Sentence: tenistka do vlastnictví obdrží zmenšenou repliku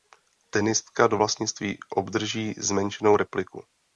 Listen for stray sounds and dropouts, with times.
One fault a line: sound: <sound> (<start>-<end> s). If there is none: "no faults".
no faults